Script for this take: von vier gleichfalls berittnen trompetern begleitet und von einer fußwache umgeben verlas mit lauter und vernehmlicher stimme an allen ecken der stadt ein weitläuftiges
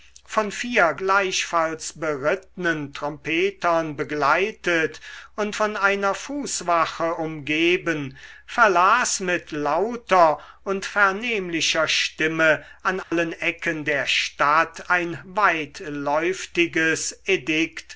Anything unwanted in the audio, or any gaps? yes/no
yes